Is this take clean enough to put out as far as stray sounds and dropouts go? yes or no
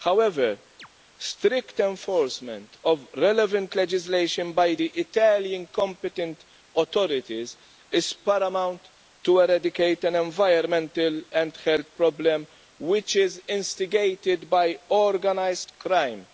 no